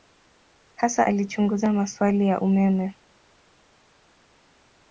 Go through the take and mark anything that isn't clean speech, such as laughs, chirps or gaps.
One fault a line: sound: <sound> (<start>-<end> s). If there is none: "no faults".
no faults